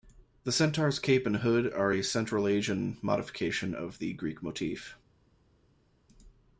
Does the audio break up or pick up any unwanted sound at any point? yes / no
no